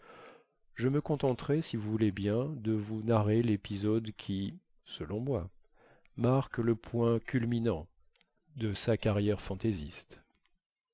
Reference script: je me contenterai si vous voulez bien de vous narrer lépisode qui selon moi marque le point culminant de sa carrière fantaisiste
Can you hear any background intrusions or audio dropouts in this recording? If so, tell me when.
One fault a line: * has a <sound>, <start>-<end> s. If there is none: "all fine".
all fine